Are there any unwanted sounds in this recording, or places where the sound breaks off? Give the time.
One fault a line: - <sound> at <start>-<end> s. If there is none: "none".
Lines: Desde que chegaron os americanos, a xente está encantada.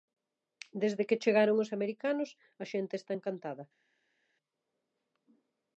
none